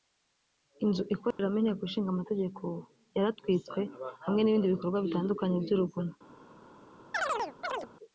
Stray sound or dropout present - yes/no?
yes